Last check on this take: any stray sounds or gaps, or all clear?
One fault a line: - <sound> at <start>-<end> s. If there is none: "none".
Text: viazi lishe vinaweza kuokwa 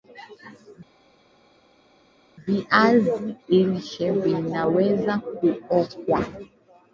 none